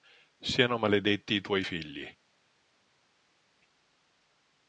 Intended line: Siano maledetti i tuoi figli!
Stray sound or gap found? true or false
false